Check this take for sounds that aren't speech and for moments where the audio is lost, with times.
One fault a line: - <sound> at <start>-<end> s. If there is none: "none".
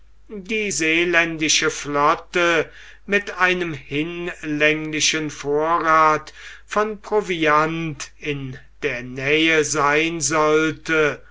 none